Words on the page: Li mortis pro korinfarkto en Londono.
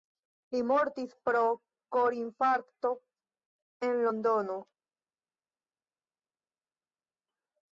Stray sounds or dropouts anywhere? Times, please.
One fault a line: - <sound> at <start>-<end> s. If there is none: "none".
none